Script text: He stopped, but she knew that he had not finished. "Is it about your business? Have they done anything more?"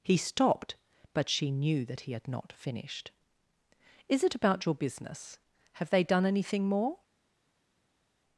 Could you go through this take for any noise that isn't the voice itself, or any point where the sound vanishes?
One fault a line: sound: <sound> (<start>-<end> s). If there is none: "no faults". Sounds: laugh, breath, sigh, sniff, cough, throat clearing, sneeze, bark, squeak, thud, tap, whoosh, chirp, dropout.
no faults